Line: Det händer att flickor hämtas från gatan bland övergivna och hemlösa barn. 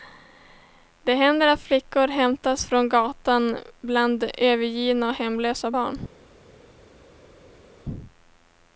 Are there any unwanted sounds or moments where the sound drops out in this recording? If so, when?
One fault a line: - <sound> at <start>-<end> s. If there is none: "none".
none